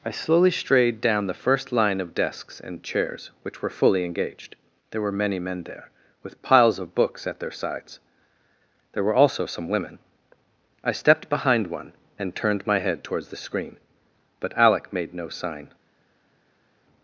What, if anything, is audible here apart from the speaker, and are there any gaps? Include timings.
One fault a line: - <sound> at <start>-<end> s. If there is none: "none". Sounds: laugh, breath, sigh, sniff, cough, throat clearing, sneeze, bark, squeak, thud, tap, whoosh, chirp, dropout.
none